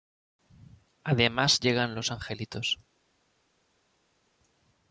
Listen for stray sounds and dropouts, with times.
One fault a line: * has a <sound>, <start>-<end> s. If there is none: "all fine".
all fine